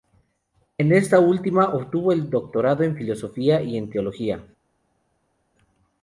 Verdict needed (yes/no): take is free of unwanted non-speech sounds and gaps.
yes